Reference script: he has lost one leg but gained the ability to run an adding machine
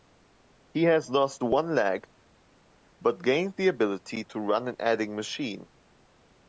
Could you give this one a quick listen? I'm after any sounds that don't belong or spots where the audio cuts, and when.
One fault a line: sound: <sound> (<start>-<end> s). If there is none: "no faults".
no faults